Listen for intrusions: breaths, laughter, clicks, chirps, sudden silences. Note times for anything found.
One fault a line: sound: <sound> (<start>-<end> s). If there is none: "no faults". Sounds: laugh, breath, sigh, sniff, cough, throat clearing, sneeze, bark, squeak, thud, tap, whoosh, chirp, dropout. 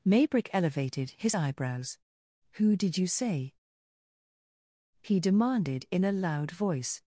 no faults